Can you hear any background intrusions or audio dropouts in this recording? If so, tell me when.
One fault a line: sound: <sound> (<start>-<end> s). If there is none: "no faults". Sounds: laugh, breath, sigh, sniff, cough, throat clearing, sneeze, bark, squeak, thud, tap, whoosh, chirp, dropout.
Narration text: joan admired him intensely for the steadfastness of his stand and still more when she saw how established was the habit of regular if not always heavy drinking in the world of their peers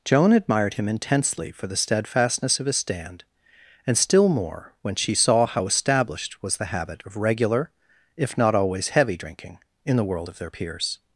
no faults